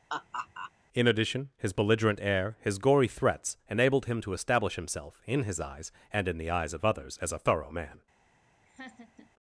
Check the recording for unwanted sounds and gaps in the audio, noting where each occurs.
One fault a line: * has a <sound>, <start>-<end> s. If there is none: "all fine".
* has a laugh, 0.1-0.7 s
* has a laugh, 8.7-9.3 s